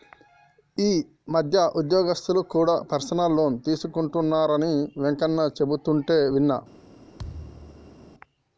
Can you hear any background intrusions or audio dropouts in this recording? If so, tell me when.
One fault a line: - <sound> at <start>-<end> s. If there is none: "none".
- thud at 7.2-8.1 s